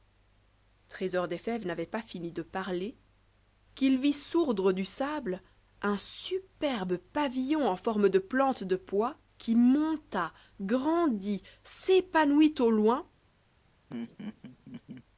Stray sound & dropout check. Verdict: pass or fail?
fail